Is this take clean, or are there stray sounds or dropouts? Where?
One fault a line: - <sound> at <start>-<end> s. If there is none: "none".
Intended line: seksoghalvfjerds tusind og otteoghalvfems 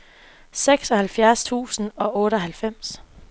none